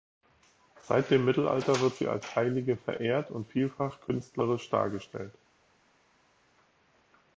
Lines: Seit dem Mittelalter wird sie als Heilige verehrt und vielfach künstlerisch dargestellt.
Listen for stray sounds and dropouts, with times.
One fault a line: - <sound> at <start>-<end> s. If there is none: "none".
none